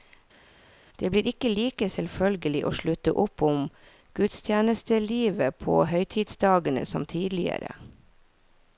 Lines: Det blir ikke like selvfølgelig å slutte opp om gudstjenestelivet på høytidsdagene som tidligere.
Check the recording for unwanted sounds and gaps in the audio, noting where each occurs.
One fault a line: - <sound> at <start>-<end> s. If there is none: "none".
none